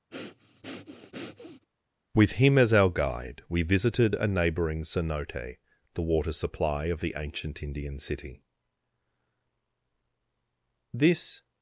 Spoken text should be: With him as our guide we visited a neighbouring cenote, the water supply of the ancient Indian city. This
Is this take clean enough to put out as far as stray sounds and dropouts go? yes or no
no